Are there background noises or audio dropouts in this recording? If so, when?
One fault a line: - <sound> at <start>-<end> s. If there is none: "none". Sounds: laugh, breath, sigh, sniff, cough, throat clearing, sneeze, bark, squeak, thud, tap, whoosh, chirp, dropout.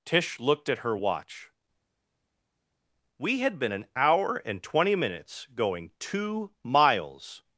none